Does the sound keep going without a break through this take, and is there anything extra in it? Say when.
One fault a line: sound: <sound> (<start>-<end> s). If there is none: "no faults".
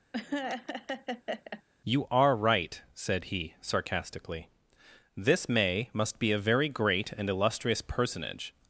sound: laugh (0.1-1.6 s)